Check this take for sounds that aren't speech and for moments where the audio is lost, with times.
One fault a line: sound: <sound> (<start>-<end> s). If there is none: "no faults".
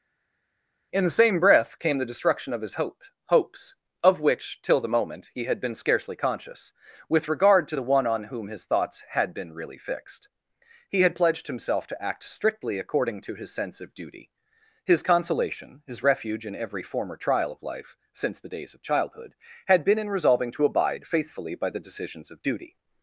no faults